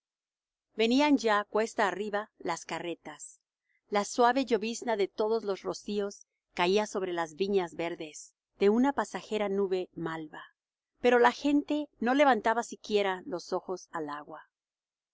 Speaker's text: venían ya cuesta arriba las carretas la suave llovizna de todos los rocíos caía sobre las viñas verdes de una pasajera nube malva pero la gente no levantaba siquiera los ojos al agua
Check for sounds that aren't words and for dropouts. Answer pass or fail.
pass